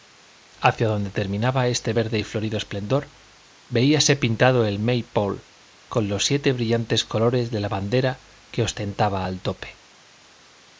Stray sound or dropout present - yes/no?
no